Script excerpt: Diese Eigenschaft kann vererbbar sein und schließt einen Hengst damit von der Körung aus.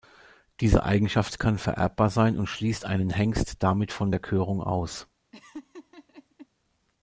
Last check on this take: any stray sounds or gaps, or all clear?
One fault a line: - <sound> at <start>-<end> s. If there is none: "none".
- laugh at 5.3-6.5 s